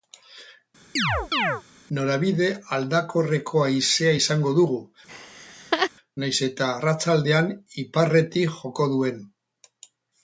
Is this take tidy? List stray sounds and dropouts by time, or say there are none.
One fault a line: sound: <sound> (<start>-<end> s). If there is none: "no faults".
sound: chirp (1.0-1.6 s)
sound: laugh (5.1-5.9 s)